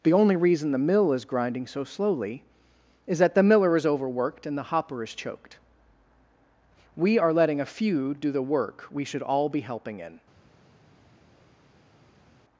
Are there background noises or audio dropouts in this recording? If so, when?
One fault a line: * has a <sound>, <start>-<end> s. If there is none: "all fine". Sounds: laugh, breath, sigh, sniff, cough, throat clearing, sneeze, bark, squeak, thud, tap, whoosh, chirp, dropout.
all fine